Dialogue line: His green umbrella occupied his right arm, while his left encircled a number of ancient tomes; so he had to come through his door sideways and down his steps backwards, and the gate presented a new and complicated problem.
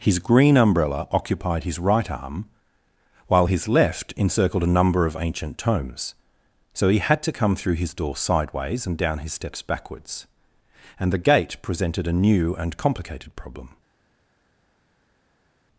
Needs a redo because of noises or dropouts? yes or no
no